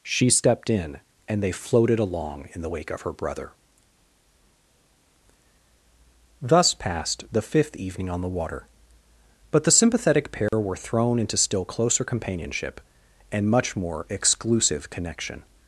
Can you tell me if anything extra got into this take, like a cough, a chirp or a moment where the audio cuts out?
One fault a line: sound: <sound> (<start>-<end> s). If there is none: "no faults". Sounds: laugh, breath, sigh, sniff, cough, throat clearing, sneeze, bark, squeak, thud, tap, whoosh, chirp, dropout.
sound: dropout (10.5-10.5 s)